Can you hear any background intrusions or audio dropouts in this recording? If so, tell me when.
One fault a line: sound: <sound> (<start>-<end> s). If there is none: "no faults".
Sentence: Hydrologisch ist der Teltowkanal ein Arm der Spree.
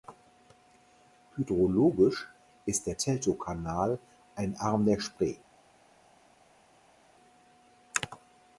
no faults